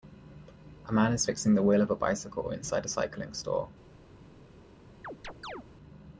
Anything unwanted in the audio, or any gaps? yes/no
yes